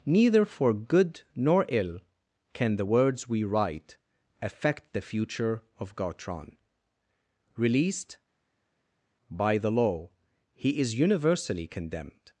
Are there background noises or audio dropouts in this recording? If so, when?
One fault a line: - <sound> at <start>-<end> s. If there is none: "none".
none